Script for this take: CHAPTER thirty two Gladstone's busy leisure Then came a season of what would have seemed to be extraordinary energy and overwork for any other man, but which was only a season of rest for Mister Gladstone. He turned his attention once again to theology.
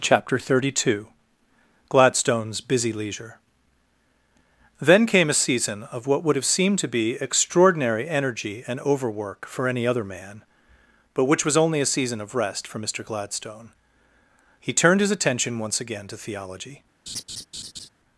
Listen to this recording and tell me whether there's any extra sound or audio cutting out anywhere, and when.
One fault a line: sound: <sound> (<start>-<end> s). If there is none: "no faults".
sound: laugh (17.1-17.9 s)